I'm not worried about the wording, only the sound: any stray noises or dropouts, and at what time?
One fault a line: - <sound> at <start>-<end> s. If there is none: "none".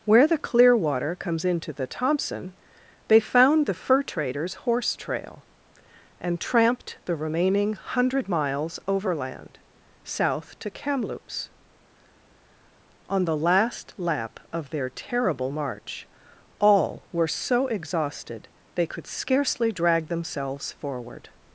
none